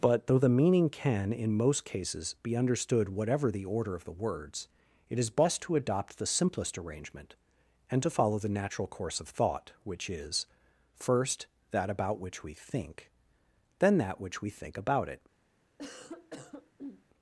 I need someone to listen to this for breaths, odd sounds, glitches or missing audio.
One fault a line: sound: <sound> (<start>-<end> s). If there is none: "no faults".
sound: cough (15.8-17.0 s)